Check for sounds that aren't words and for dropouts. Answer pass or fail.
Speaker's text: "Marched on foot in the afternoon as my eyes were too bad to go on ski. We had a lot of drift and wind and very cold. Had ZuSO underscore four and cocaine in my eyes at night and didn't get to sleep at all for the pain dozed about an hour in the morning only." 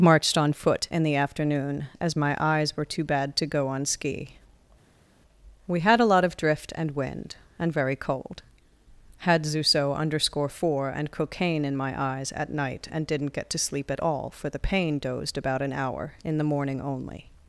pass